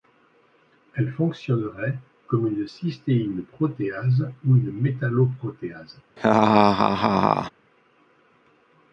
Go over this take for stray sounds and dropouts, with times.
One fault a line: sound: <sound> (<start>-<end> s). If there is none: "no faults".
sound: laugh (6.2-7.5 s)